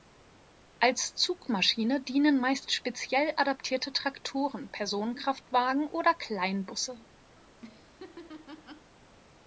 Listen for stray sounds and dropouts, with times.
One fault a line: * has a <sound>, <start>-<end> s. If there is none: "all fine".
* has a laugh, 7.4-8.9 s